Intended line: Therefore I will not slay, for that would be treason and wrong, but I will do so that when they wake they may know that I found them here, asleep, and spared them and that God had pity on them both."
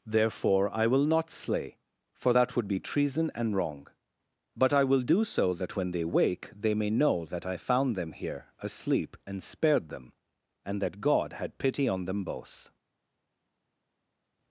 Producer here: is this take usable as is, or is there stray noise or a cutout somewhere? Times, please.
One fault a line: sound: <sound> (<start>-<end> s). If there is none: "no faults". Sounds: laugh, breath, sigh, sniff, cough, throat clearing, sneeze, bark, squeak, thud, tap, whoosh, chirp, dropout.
no faults